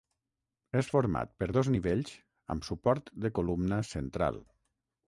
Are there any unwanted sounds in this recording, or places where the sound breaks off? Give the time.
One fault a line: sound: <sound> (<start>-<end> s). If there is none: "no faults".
no faults